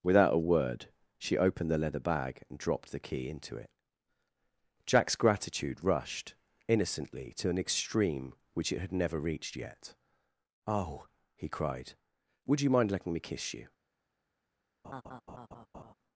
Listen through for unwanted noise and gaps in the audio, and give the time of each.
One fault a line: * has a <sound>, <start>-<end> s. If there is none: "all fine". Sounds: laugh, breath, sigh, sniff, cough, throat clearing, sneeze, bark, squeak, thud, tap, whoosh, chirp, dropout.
* has a laugh, 14.8-15.9 s